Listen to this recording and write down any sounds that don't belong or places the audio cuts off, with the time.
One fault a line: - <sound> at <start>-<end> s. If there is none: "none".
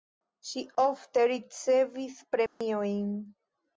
- dropout at 2.5-2.6 s